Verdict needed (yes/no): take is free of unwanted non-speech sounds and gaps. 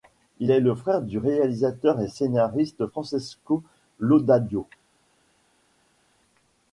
yes